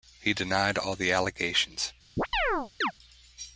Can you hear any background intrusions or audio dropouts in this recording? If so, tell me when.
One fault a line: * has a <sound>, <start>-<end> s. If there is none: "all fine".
* has a chirp, 2.2-2.9 s